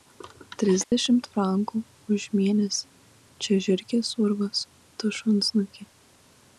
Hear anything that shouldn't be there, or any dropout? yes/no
yes